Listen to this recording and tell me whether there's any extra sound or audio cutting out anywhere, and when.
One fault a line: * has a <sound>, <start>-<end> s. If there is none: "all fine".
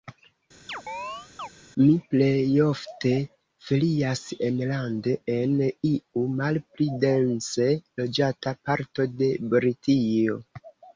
* has a chirp, 0.7-1.5 s